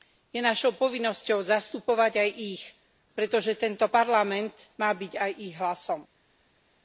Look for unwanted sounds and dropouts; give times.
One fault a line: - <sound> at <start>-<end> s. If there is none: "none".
none